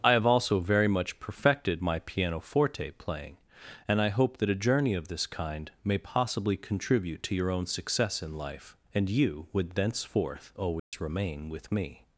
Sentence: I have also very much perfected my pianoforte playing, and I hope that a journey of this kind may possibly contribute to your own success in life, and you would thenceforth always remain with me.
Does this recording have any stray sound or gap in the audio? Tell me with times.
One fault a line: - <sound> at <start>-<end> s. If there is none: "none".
- dropout at 10.8-10.9 s